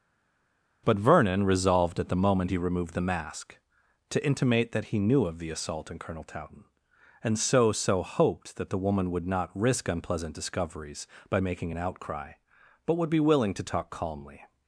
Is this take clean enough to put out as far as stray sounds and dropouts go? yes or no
yes